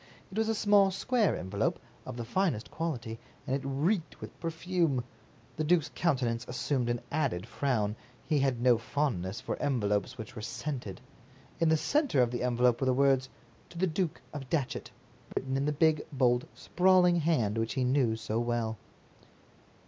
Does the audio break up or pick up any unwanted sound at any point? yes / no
yes